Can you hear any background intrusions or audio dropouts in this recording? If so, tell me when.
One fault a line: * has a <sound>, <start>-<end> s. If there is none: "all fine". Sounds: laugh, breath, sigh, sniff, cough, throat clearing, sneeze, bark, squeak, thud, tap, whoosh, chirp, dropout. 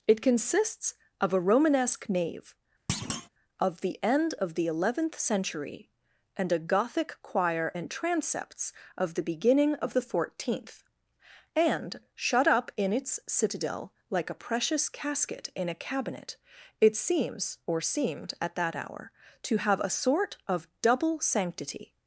* has a thud, 2.9-3.3 s